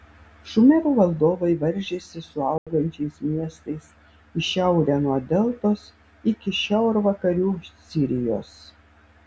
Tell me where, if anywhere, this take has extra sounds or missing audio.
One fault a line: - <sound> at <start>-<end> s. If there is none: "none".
- dropout at 2.6-2.7 s